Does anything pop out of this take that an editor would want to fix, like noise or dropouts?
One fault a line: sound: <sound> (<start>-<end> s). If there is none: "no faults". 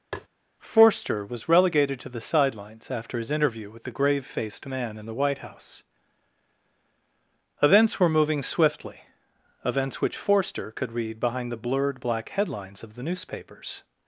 sound: tap (0.1-0.3 s)